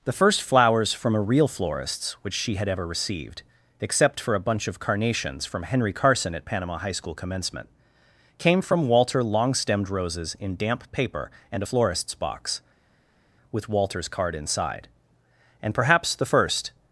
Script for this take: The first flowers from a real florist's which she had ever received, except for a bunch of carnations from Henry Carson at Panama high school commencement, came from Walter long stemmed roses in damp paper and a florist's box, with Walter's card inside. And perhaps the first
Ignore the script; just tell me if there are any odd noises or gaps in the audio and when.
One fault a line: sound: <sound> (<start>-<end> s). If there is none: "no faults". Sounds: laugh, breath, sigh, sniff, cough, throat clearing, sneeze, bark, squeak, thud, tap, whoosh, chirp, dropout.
no faults